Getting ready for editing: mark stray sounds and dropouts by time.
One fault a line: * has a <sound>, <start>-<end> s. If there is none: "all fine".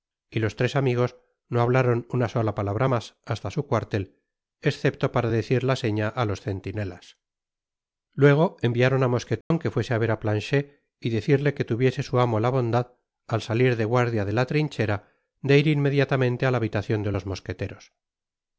* has a dropout, 9.4-9.5 s